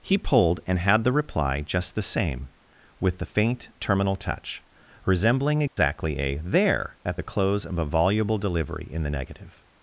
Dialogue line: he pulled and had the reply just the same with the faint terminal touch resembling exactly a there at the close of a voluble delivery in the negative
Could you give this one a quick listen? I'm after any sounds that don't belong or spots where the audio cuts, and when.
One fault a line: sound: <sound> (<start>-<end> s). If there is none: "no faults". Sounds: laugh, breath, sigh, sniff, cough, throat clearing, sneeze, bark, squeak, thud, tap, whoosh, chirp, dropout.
sound: dropout (5.7-5.8 s)